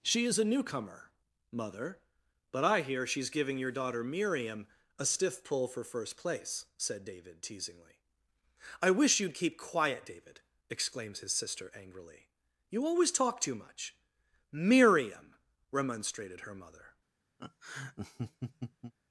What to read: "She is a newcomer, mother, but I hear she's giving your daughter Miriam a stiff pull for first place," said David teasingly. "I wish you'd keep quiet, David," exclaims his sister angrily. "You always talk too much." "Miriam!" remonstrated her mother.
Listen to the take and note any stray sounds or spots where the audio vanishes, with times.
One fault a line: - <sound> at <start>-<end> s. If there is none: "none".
- laugh at 17.4-18.9 s